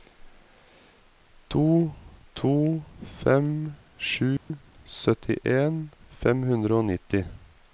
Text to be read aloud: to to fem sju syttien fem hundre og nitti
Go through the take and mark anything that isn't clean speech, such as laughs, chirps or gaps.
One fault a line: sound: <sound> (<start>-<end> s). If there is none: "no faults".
sound: dropout (4.4-4.5 s)